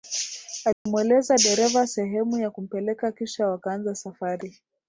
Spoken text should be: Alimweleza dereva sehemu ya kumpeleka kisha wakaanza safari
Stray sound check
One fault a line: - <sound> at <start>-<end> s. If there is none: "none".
- dropout at 0.7-0.9 s